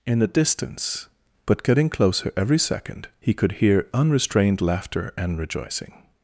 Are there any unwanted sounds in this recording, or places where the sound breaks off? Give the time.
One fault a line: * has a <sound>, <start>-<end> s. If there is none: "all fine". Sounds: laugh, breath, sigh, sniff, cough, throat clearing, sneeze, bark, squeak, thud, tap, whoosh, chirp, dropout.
all fine